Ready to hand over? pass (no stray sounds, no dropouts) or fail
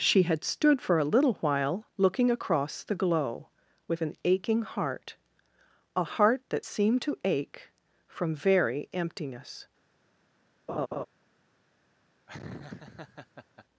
fail